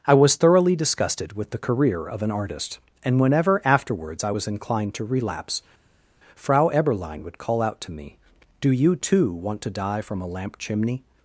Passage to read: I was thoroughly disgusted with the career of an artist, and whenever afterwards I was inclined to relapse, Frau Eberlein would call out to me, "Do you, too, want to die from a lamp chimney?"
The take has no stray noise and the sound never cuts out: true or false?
true